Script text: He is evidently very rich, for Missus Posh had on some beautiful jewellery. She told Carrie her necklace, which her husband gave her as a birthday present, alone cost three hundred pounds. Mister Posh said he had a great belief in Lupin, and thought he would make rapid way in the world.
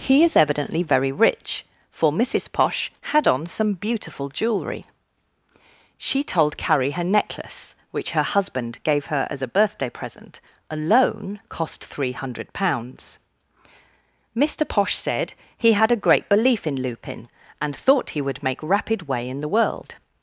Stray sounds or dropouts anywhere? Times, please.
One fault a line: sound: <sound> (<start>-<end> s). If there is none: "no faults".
no faults